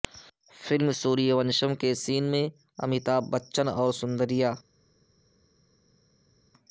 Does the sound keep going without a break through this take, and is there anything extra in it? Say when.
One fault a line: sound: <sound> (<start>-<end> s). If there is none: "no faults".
no faults